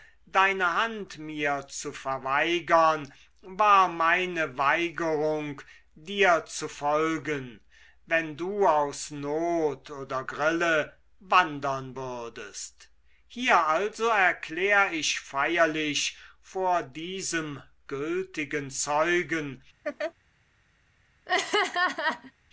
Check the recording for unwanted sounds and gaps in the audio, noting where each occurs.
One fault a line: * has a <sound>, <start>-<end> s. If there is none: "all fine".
* has a laugh, 19.8-20.1 s
* has a laugh, 21.3-22.3 s